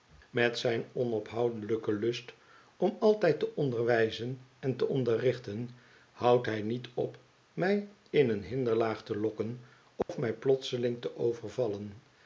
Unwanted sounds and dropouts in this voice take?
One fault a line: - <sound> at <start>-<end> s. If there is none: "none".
- dropout at 10.0-10.1 s